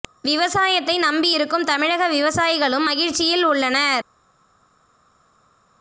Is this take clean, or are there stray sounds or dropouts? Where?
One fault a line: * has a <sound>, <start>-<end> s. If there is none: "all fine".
all fine